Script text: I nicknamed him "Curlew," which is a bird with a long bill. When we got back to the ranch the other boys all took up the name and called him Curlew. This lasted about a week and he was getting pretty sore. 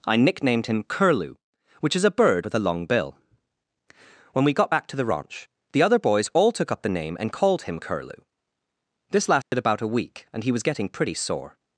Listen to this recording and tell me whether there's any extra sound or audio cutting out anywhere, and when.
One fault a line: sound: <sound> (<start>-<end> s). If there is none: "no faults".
sound: dropout (9.4-9.5 s)